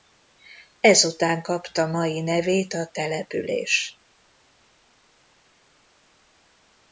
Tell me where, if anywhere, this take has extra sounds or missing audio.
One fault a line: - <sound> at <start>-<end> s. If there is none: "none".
none